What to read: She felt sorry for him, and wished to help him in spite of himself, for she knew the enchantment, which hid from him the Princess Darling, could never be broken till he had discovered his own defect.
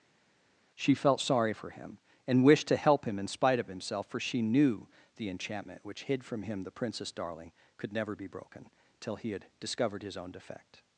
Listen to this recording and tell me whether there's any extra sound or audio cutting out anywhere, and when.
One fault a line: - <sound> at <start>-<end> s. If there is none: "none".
none